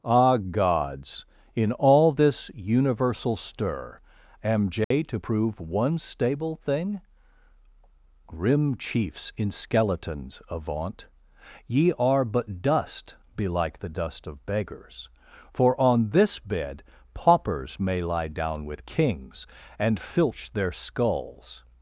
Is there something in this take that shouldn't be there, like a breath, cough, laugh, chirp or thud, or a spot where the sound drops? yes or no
yes